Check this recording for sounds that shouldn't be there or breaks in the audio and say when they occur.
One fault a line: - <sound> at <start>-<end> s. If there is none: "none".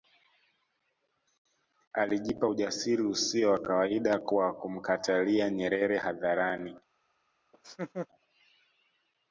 - laugh at 7.5-8.1 s